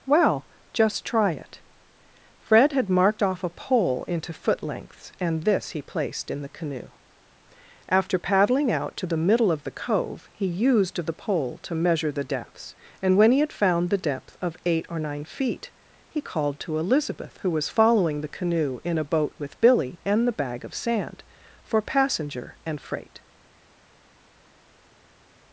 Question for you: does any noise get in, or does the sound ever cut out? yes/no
no